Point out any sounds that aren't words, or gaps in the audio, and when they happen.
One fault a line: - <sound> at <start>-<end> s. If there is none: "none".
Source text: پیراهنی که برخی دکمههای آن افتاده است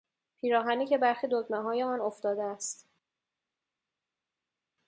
none